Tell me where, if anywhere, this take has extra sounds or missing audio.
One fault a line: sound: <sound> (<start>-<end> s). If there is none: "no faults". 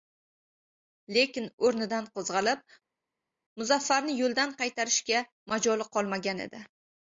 no faults